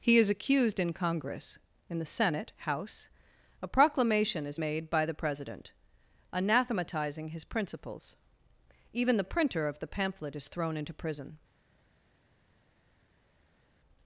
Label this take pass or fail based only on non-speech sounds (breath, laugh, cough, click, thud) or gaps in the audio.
pass